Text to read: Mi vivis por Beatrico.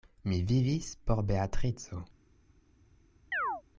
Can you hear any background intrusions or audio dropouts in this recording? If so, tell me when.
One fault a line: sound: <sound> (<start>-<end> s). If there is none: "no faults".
sound: chirp (3.3-3.6 s)